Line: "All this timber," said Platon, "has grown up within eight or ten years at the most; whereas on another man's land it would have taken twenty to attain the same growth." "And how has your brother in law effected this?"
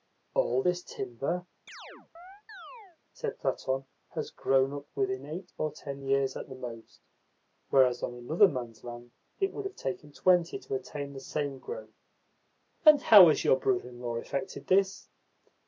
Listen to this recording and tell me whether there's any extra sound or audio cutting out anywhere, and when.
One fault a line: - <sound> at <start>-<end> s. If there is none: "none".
- chirp at 1.7-3.0 s